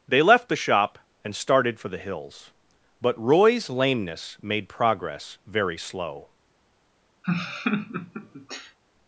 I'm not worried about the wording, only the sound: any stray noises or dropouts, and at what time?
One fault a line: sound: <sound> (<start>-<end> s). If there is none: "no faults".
sound: laugh (7.2-8.8 s)